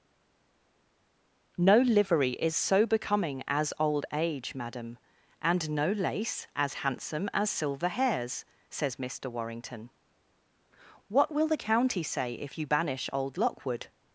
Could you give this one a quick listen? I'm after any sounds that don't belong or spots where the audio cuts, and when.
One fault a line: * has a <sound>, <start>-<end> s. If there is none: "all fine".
all fine